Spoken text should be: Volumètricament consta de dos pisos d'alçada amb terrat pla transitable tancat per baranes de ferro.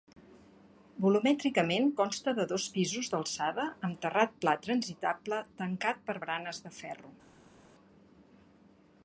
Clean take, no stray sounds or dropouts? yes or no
yes